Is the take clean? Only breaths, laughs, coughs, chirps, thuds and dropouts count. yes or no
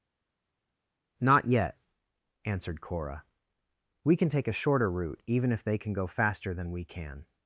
yes